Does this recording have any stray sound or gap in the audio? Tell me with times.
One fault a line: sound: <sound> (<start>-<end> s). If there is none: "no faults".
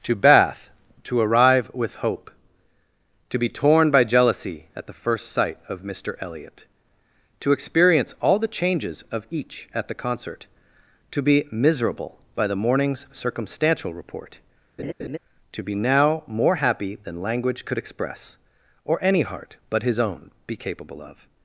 sound: laugh (14.8-15.2 s)